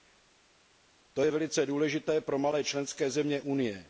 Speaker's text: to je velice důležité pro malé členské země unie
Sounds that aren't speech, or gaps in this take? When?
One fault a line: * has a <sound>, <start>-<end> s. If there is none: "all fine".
all fine